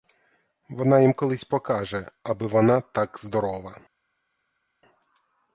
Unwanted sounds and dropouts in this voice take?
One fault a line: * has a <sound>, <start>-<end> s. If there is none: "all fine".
all fine